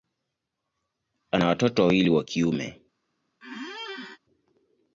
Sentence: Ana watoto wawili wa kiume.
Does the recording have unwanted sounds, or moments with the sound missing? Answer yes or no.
yes